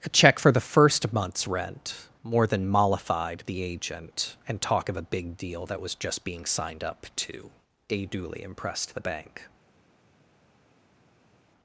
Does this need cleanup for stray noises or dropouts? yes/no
no